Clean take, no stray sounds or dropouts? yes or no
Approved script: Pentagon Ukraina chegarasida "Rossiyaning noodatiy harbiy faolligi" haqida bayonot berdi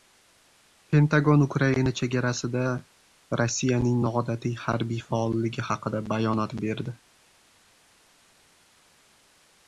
yes